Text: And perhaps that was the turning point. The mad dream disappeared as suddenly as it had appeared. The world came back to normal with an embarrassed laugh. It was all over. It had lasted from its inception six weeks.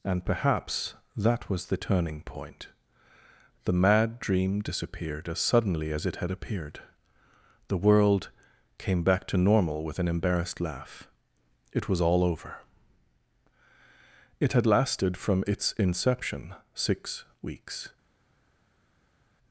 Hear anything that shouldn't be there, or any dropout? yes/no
no